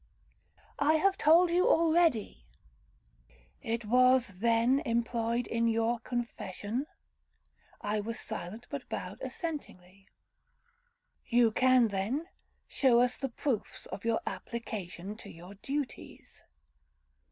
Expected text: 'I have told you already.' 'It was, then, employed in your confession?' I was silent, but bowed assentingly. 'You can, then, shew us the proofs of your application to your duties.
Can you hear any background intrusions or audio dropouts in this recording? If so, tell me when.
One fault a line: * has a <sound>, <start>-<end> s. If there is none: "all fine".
all fine